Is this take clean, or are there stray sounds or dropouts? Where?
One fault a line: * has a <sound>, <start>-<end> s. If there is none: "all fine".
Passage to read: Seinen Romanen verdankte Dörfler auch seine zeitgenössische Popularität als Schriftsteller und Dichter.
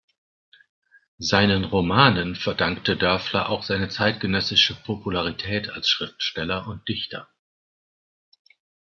all fine